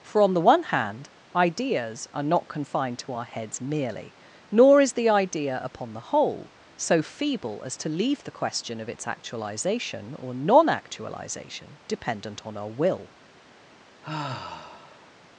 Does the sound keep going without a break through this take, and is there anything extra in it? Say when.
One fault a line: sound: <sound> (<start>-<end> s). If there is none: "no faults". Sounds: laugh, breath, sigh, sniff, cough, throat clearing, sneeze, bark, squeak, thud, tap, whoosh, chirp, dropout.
sound: sigh (14.0-15.1 s)